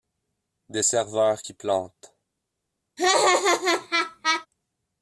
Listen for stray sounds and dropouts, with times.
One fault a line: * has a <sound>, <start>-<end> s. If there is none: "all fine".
* has a laugh, 3.0-4.5 s